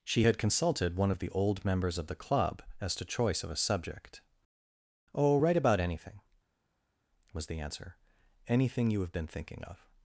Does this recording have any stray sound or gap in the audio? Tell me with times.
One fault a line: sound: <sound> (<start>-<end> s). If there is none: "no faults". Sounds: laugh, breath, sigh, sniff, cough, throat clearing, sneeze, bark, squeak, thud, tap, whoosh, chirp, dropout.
no faults